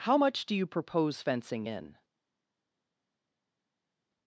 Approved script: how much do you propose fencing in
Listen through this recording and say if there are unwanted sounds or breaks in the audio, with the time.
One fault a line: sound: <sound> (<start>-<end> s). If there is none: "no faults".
no faults